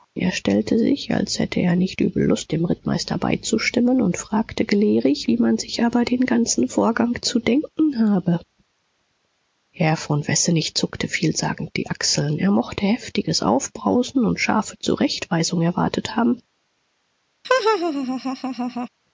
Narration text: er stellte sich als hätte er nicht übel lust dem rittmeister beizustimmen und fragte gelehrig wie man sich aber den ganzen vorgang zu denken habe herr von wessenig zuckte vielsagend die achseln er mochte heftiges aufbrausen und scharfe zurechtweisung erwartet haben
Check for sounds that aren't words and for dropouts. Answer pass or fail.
fail